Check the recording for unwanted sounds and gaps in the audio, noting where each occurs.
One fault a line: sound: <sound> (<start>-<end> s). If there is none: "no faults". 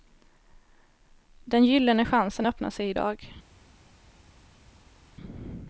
no faults